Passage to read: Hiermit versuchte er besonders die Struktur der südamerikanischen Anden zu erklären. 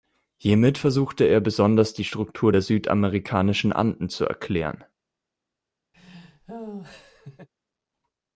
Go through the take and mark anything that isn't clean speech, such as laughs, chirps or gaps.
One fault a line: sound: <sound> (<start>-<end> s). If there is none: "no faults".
sound: laugh (5.9-7.5 s)